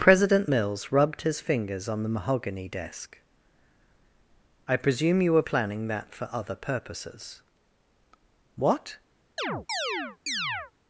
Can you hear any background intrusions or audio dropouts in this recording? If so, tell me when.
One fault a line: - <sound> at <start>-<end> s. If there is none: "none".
- chirp at 9.4-10.7 s